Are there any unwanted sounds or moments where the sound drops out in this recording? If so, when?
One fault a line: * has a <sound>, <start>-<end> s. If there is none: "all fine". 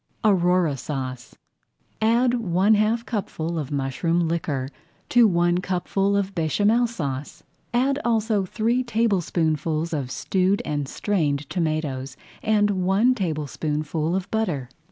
all fine